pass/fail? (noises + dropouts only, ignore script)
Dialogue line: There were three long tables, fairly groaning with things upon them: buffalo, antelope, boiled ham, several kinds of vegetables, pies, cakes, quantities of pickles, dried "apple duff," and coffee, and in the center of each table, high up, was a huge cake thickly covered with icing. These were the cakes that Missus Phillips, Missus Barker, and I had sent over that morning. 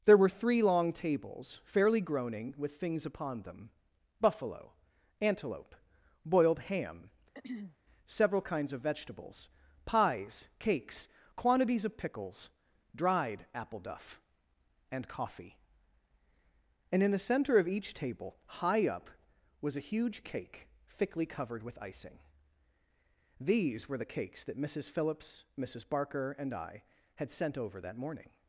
fail